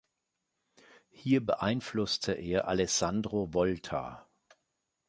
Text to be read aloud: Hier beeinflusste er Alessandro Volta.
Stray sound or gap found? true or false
false